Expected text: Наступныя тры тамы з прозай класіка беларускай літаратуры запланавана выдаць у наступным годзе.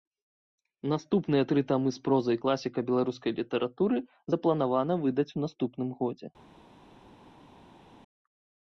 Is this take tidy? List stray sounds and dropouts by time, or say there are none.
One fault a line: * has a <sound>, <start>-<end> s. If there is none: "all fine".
all fine